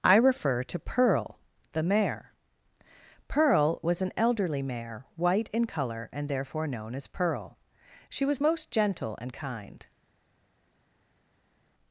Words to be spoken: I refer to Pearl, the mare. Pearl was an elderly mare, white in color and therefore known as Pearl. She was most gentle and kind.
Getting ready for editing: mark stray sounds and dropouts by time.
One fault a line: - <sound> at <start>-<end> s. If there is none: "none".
none